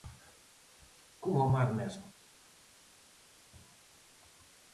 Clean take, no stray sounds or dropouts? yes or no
yes